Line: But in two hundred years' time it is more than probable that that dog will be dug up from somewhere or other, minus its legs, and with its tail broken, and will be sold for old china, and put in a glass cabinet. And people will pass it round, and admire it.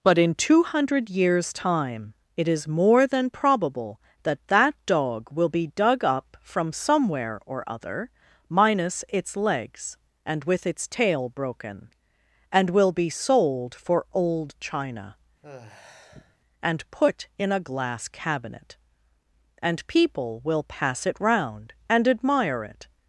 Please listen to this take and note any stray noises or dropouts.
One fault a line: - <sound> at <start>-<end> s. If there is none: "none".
- sigh at 15.4-16.4 s